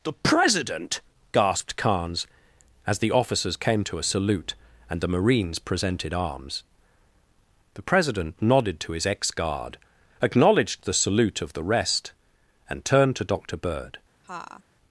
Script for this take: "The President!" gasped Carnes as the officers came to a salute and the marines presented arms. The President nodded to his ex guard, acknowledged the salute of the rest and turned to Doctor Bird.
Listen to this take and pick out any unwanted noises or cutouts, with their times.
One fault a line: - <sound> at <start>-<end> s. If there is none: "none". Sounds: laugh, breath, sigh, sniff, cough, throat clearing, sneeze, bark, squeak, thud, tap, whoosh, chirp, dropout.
- laugh at 14.2-14.6 s